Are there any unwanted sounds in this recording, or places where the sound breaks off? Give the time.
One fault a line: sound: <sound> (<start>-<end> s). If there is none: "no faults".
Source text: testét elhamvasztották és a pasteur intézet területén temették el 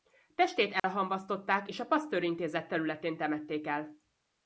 sound: dropout (0.8-0.8 s)